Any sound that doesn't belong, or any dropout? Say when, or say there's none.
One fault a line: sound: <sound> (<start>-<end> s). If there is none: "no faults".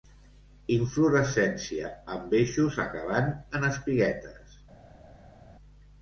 no faults